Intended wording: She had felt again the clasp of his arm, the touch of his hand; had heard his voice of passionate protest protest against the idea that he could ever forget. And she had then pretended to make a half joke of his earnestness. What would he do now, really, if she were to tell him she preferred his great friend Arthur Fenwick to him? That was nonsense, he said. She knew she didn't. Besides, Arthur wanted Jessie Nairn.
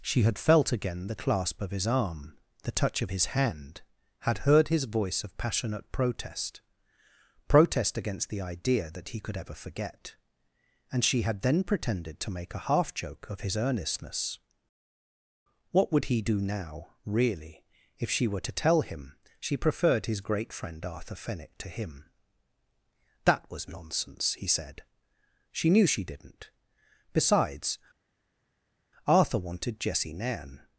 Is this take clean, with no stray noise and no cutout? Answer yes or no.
yes